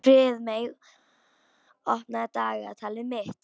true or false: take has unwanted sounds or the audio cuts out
false